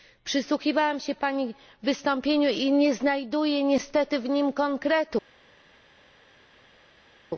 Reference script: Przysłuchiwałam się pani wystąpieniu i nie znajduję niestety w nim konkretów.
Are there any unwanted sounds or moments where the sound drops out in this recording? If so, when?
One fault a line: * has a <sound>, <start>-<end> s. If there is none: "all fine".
all fine